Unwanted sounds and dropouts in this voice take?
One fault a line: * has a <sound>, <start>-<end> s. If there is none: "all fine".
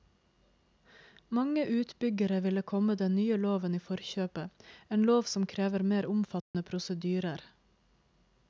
* has a dropout, 6.4-6.5 s